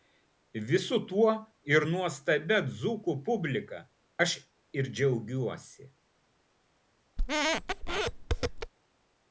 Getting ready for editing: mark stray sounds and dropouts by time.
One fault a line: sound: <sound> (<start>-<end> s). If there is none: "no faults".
sound: squeak (7.2-8.7 s)